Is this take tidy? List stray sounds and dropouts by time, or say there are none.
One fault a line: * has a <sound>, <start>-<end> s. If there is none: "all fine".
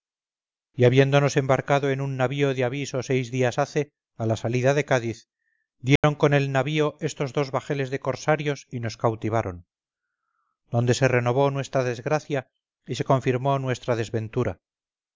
* has a dropout, 6.0-6.0 s